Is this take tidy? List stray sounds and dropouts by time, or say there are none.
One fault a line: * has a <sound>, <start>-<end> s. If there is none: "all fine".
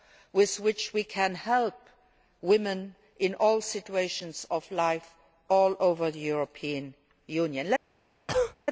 * has a cough, 8.3-8.6 s